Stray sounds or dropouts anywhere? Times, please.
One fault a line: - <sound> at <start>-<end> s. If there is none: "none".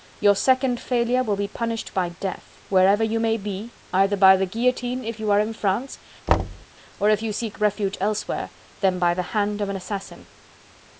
- thud at 6.3-6.7 s